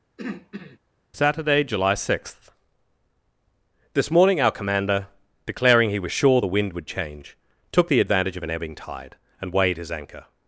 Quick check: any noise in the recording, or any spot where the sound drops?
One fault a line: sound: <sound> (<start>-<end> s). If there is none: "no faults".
sound: throat clearing (0.2-0.8 s)